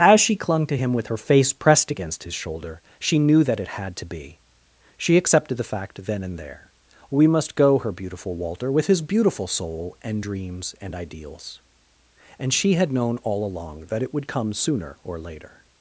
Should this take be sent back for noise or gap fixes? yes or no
no